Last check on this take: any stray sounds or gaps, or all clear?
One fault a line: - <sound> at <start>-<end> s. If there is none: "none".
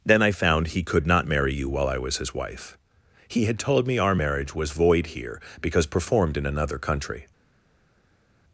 none